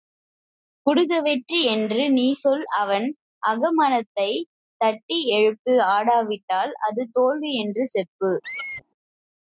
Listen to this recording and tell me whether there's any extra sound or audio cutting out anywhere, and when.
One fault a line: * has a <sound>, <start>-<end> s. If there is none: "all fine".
* has a squeak, 8.4-8.8 s